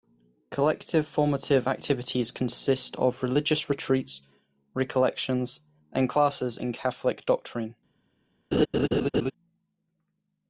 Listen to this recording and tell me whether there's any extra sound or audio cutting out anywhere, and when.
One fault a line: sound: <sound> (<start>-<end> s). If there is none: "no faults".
sound: laugh (8.5-9.3 s)